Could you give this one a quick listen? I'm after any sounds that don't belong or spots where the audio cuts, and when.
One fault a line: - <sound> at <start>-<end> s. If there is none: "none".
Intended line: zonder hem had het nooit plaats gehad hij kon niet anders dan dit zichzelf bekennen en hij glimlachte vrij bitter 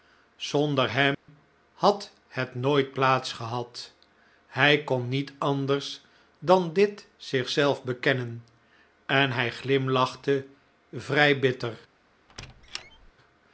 - dropout at 1.1-1.3 s
- squeak at 12.3-13.1 s